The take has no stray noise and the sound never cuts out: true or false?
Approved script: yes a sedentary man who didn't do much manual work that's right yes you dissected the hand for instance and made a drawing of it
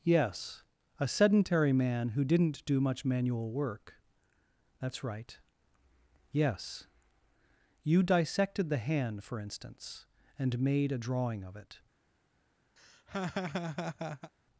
false